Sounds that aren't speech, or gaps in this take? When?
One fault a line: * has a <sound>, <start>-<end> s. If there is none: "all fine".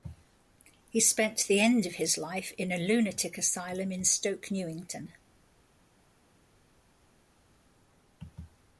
all fine